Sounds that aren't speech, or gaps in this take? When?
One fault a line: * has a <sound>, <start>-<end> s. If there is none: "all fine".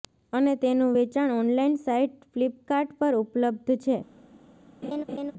* has a laugh, 4.8-5.3 s